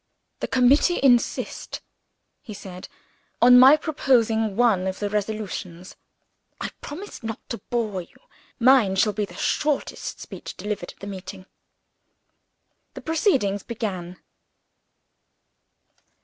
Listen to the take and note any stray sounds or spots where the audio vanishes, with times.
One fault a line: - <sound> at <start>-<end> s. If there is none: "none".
none